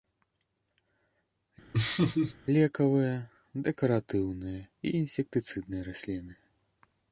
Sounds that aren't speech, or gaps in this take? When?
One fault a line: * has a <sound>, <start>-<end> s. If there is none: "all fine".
* has a laugh, 1.7-2.4 s